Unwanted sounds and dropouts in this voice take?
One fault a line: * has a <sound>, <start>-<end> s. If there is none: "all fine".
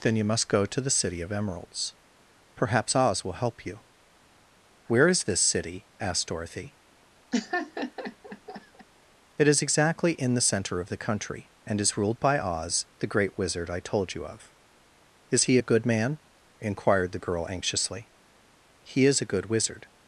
* has a laugh, 7.3-8.9 s